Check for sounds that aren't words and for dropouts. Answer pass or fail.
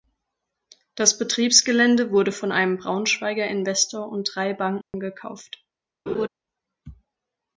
fail